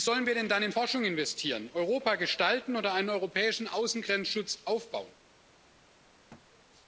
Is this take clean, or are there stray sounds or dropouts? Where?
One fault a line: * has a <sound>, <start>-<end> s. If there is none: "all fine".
* has a thud, 6.3-6.5 s